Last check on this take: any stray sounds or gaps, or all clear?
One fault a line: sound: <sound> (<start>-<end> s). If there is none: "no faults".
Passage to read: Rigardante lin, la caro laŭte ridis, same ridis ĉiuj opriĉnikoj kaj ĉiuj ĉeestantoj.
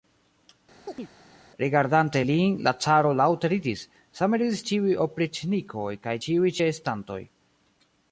sound: chirp (0.9-1.1 s)